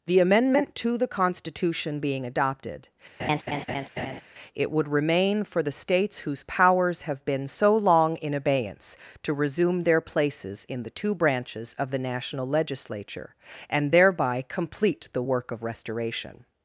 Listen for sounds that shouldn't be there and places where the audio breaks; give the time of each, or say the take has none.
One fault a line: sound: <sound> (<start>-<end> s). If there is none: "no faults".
sound: laugh (3.2-4.2 s)